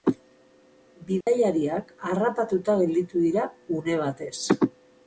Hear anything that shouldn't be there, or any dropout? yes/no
yes